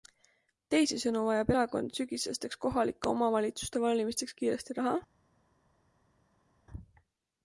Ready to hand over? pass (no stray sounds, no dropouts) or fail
pass